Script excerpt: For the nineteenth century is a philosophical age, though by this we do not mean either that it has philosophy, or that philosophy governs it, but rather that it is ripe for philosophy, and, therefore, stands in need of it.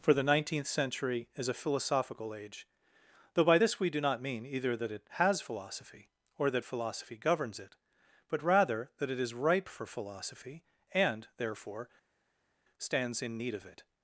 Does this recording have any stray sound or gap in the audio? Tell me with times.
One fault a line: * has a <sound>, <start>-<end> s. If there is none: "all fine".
all fine